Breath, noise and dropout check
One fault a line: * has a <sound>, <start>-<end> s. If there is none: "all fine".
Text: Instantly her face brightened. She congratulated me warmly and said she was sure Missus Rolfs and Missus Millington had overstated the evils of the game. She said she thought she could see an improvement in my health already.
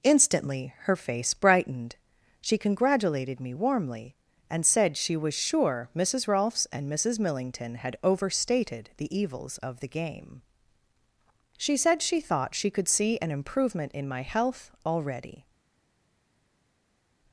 all fine